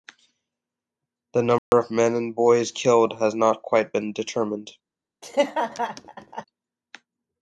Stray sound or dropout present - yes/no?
yes